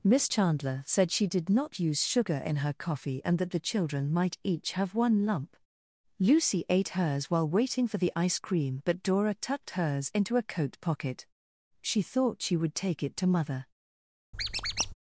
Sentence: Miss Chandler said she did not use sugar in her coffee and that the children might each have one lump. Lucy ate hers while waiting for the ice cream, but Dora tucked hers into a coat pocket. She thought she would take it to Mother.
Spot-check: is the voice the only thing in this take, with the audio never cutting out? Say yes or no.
no